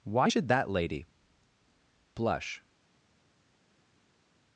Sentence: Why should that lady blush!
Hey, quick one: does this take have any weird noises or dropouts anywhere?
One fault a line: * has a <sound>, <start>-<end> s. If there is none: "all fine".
all fine